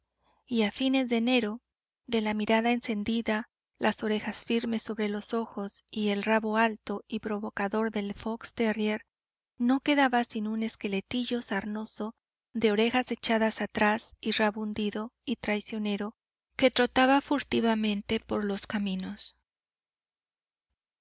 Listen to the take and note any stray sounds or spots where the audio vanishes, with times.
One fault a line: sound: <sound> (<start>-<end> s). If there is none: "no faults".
no faults